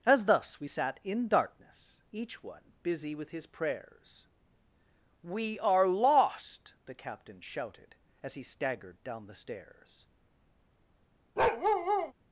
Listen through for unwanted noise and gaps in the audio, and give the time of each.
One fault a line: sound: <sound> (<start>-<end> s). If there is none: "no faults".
sound: bark (11.4-12.1 s)